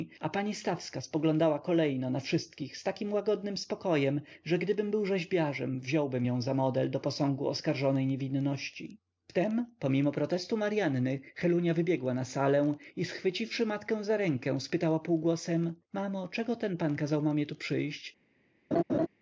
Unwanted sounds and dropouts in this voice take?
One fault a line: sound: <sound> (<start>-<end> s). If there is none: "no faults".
sound: laugh (18.7-19.1 s)